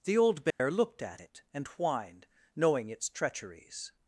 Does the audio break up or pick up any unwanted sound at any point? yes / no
yes